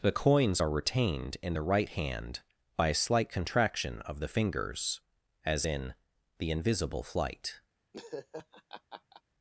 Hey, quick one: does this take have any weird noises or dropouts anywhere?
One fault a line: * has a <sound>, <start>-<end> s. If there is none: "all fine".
* has a laugh, 7.9-9.2 s